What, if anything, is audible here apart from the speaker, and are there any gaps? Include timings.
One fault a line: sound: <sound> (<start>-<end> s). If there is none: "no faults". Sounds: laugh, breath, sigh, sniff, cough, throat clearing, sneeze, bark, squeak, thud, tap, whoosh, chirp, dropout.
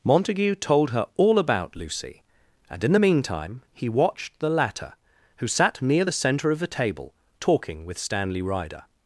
no faults